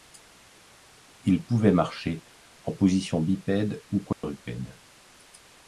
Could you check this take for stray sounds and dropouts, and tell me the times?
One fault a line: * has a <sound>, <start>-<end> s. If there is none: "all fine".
* has a dropout, 4.1-4.2 s